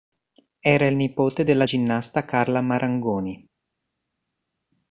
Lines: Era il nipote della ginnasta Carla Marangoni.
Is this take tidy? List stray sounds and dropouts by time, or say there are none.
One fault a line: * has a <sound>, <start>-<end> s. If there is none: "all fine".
all fine